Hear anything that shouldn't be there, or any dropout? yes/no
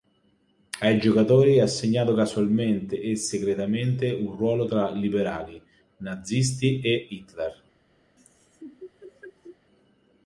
yes